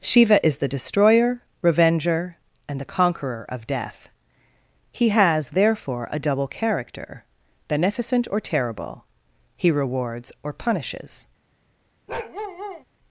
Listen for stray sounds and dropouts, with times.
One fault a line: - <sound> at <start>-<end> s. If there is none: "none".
- bark at 12.1-12.8 s